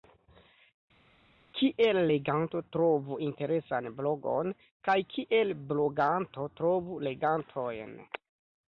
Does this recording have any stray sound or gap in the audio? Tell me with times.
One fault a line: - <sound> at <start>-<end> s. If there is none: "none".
none